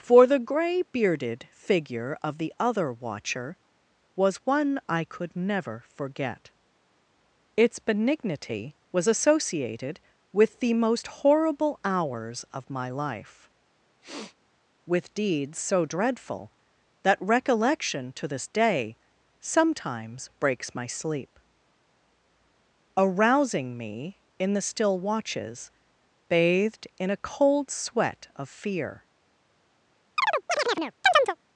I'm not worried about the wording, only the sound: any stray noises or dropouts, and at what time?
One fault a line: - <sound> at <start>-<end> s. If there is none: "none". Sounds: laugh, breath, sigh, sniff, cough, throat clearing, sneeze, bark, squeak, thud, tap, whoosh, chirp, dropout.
- sniff at 14.0-14.4 s
- chirp at 30.2-31.4 s